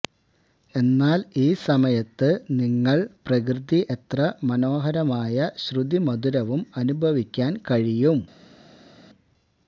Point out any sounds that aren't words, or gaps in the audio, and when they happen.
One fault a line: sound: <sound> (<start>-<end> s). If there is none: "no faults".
no faults